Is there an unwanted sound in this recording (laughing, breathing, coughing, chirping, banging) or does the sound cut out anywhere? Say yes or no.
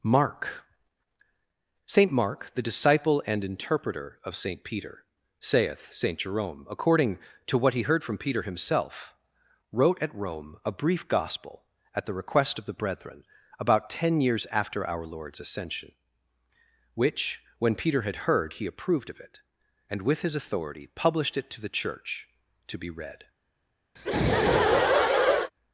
yes